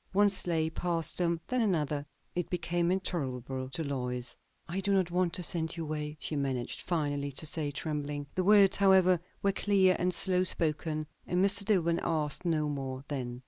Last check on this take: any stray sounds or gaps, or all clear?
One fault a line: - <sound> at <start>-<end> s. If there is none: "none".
none